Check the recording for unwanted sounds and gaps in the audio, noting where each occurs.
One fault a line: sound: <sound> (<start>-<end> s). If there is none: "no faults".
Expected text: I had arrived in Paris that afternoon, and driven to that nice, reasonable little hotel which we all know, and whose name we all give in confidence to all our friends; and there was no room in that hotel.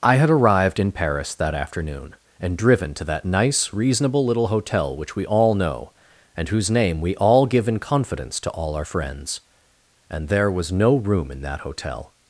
no faults